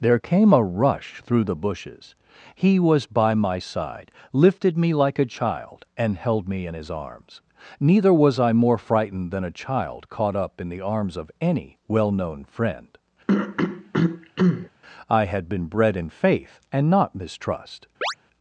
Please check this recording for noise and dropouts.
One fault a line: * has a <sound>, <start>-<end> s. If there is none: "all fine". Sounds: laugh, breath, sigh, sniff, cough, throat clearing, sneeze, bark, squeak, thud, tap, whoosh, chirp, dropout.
* has a throat clearing, 13.3-14.7 s
* has a chirp, 18.0-18.1 s